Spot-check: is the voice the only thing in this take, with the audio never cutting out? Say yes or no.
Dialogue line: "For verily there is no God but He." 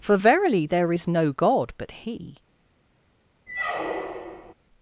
no